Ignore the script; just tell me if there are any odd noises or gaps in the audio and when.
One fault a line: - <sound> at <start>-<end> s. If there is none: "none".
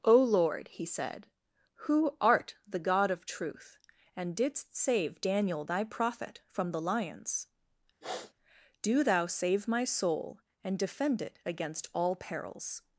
- sniff at 8.0-8.3 s